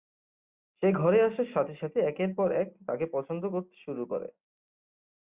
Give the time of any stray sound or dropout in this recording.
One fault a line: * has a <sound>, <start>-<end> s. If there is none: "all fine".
all fine